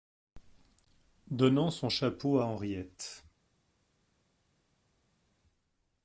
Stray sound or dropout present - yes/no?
no